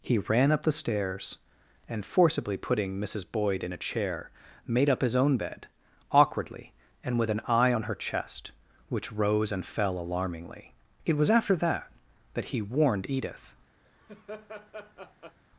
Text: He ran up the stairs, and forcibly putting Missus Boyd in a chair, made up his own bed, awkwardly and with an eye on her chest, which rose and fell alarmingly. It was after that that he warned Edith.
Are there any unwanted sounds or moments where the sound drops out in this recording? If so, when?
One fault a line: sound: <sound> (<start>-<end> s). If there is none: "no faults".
sound: laugh (13.8-15.4 s)